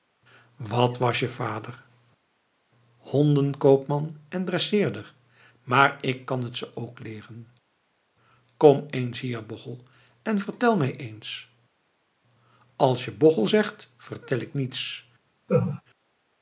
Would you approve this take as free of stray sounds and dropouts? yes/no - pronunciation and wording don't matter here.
no